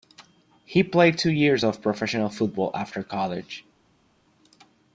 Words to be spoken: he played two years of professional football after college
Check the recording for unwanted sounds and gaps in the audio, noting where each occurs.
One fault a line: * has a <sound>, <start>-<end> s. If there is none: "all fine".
all fine